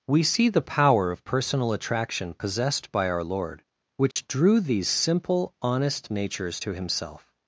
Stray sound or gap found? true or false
true